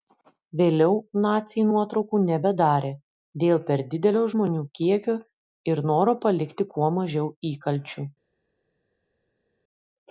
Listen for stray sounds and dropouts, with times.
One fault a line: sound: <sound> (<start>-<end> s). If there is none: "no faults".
no faults